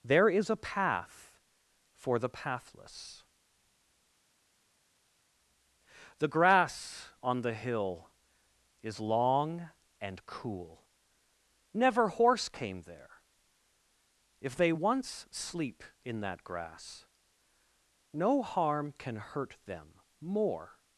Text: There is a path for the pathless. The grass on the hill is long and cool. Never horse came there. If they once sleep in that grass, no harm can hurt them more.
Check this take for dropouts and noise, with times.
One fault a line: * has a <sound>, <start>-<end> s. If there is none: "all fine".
all fine